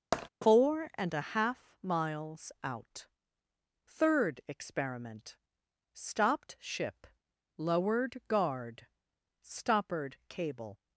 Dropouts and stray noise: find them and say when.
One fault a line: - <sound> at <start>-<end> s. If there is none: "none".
- tap at 0.1-0.3 s